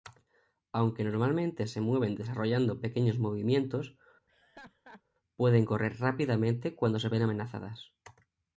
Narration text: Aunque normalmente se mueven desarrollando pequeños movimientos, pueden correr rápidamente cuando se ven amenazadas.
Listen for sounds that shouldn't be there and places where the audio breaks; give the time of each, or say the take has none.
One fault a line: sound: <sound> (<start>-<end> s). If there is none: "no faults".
sound: laugh (4.3-5.0 s)